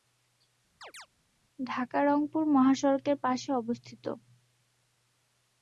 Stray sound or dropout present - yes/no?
yes